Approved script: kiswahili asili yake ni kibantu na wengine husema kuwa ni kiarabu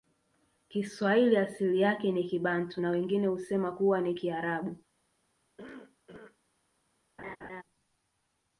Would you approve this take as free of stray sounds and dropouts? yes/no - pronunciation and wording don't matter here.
no